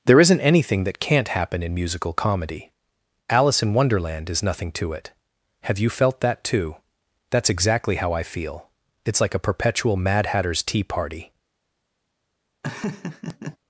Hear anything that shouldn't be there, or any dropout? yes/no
yes